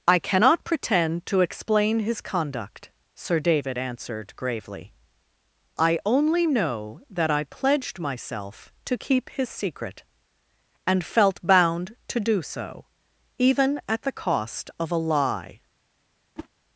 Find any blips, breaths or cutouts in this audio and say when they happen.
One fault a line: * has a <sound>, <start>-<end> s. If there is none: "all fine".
* has a whoosh, 16.4-16.5 s